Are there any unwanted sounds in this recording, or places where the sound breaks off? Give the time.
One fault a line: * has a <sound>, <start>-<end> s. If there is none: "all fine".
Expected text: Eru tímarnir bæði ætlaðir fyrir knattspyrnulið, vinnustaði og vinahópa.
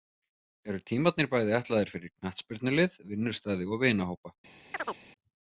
* has a chirp, 4.7-5.0 s